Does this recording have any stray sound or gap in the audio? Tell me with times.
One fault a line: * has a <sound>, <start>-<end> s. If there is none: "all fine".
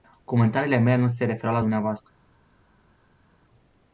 all fine